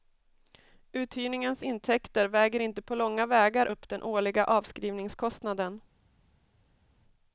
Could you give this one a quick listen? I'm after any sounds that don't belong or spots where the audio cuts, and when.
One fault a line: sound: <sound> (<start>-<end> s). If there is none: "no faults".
no faults